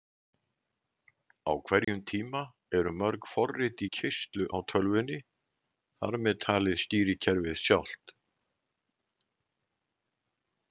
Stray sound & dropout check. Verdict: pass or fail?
fail